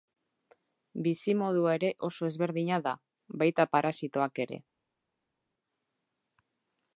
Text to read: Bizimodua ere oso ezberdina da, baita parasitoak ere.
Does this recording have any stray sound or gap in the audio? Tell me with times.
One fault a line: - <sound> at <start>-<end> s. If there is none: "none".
none